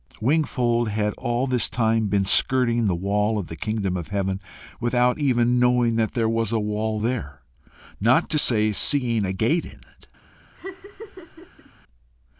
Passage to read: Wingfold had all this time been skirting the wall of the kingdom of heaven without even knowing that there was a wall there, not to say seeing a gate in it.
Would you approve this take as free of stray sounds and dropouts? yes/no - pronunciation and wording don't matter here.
no